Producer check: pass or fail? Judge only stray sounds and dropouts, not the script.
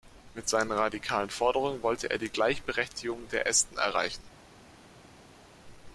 pass